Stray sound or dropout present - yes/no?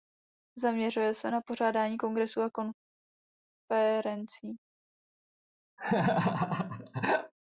yes